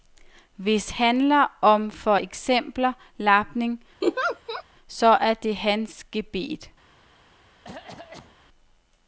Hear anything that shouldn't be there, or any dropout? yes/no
yes